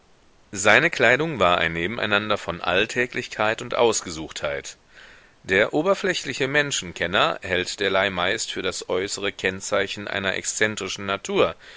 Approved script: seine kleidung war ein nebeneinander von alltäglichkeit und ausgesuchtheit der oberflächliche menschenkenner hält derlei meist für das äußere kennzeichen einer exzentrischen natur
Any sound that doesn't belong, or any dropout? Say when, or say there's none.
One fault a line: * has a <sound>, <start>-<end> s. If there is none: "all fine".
all fine